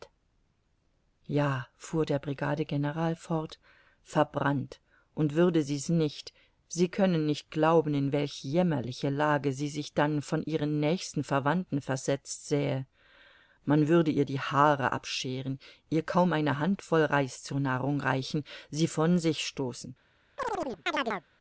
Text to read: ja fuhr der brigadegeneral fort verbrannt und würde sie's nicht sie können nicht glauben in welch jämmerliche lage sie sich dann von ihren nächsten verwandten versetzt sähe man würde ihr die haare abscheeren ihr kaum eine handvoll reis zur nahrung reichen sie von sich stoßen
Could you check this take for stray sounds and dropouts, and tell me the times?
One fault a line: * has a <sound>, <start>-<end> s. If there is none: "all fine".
* has a chirp, 20.4-21.3 s